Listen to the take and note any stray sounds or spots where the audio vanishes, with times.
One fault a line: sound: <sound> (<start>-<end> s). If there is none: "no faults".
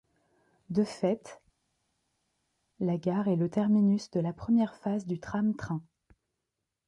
no faults